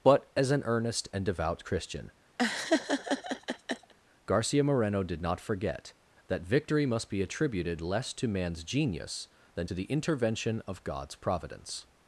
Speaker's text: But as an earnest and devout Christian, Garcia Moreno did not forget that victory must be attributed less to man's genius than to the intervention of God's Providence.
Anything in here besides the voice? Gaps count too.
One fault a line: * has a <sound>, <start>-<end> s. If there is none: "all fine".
* has a laugh, 2.4-3.9 s